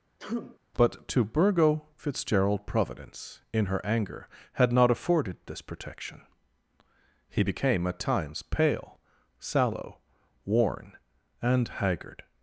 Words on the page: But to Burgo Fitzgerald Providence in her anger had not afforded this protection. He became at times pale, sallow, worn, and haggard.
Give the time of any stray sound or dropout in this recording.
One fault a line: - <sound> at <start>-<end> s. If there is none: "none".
- sneeze at 0.2-0.6 s